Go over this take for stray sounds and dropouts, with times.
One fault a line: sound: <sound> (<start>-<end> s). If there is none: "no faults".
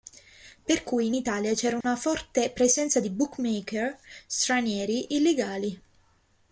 sound: dropout (1.8-1.8 s)